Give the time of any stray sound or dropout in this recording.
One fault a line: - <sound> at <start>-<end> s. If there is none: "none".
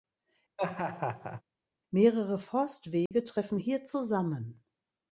- laugh at 0.6-1.4 s
- dropout at 3.1-3.1 s